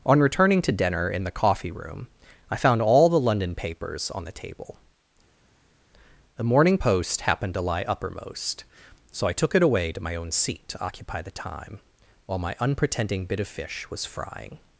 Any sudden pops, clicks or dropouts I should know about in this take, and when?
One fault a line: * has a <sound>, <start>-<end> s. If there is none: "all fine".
all fine